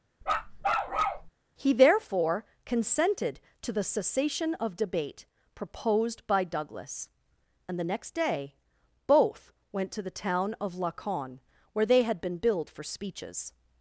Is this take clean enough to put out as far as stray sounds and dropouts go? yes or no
no